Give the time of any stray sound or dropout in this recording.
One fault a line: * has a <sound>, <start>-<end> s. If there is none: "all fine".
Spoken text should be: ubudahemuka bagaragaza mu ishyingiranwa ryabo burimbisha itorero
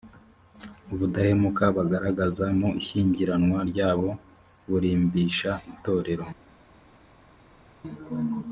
all fine